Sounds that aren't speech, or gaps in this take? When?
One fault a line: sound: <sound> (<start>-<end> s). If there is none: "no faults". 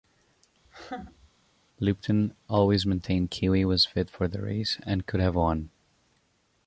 sound: laugh (0.6-1.3 s)